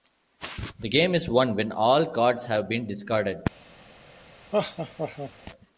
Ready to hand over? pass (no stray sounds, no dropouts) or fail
fail